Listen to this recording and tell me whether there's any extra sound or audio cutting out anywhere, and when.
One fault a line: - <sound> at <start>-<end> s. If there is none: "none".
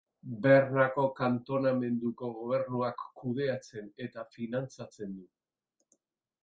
none